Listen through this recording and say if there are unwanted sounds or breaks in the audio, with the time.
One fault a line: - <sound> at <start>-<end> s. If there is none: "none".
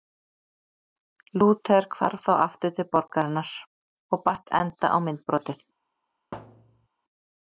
- thud at 6.3-6.9 s